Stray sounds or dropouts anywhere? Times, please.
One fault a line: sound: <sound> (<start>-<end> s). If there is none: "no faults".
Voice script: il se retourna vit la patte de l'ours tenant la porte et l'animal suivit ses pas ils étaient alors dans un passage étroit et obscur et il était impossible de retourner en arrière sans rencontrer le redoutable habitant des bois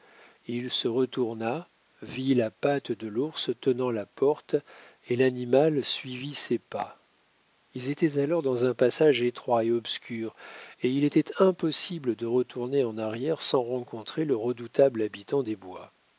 no faults